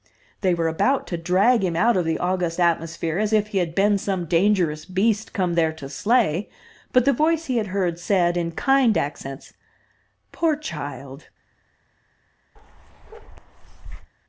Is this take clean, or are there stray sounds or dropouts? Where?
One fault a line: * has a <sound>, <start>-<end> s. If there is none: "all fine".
* has a bark, 12.6-14.1 s